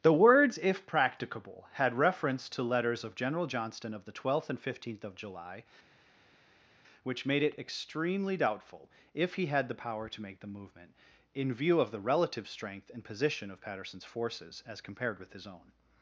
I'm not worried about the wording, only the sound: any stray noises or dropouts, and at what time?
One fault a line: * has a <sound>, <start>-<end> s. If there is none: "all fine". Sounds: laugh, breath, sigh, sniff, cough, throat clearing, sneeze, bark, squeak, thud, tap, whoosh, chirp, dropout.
all fine